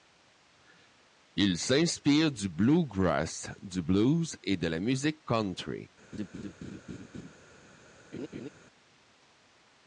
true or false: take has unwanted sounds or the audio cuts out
true